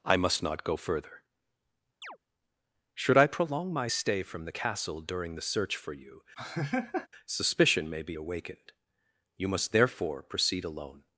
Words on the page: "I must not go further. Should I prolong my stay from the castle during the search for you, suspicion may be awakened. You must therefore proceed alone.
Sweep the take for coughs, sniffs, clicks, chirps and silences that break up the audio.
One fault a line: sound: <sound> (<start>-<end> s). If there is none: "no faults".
sound: chirp (2.0-2.2 s)
sound: laugh (6.4-7.1 s)